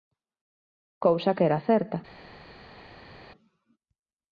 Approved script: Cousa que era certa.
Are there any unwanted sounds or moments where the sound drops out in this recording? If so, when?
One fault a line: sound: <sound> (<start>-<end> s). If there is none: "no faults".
no faults